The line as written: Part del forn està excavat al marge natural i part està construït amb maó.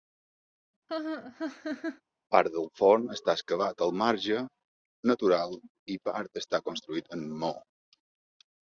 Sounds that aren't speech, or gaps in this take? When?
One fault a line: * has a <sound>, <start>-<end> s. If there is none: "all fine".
* has a laugh, 0.9-2.0 s